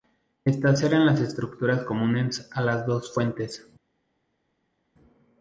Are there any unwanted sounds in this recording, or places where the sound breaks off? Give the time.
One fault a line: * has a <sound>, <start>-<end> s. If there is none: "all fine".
all fine